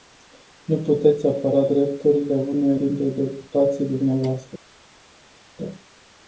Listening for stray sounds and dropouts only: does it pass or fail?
pass